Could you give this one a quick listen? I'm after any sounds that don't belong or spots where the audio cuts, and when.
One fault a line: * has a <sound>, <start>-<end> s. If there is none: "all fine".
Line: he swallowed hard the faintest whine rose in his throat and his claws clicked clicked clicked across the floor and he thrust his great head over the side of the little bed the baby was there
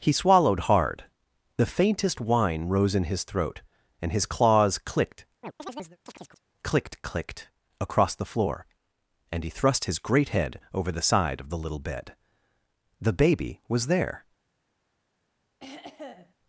* has a chirp, 5.4-6.4 s
* has a throat clearing, 15.6-16.3 s